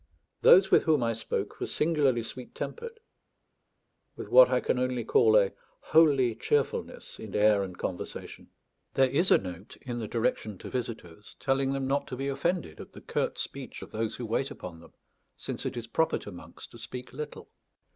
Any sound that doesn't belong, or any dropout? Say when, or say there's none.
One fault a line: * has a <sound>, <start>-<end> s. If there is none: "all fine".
all fine